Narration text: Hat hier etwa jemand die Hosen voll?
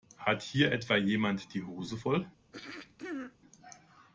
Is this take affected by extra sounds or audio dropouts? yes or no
yes